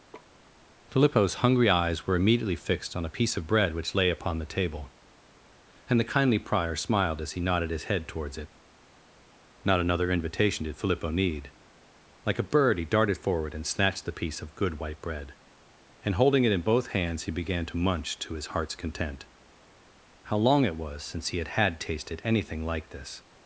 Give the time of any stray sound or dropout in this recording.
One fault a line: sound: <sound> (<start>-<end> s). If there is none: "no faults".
sound: laugh (0.1-0.4 s)